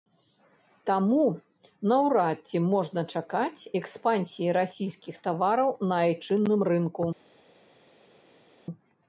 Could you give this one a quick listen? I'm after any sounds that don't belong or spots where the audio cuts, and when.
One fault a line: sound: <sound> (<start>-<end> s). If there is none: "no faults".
no faults